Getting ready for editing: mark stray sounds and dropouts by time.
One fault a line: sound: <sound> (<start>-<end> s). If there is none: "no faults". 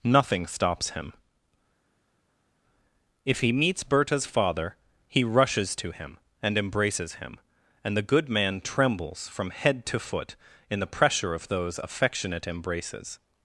no faults